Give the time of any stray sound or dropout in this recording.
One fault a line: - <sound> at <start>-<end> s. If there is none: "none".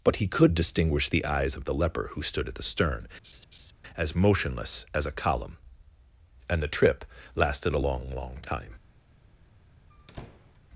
- laugh at 3.2-3.7 s
- squeak at 9.9-10.6 s